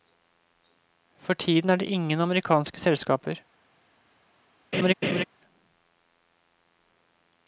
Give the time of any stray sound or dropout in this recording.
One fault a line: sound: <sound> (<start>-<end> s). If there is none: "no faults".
sound: laugh (4.7-5.2 s)